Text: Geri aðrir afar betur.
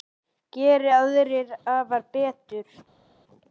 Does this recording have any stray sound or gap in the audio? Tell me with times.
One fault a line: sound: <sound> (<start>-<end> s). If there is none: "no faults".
no faults